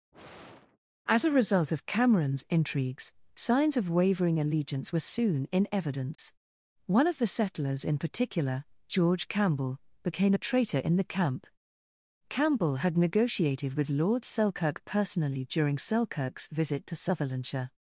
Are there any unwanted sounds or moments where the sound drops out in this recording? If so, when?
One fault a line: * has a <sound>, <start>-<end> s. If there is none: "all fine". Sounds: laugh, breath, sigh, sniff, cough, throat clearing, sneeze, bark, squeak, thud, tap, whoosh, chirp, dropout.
* has a sigh, 0.1-0.8 s
* has a dropout, 6.1-6.2 s